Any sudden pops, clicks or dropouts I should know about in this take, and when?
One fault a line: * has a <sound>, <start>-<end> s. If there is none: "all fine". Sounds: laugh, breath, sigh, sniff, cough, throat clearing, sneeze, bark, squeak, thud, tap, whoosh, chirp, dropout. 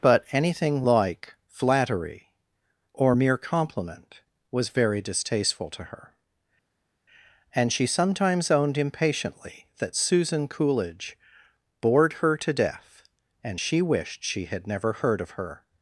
all fine